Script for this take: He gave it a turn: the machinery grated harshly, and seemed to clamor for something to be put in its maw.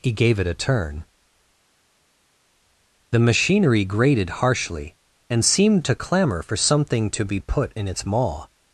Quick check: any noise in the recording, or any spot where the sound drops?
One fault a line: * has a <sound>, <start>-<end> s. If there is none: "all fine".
all fine